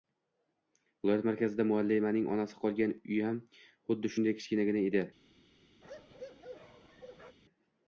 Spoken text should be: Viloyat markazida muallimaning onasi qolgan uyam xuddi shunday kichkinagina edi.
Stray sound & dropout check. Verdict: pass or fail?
fail